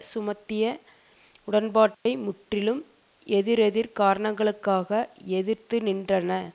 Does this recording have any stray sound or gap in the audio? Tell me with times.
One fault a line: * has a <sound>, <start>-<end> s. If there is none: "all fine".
* has a dropout, 1.9-2.1 s